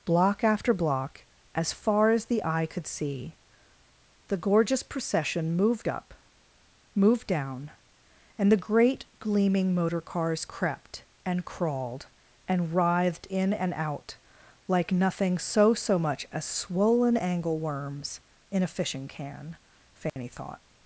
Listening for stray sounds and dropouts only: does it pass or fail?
fail